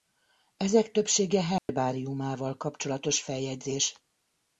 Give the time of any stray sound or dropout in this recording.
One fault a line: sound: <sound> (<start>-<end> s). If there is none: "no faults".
sound: dropout (1.6-1.7 s)